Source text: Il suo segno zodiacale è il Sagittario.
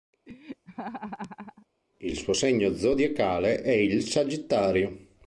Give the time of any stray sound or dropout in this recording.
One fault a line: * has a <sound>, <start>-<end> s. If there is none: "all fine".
* has a laugh, 0.3-1.7 s